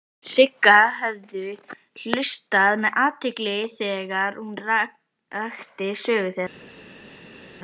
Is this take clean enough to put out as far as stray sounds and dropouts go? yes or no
yes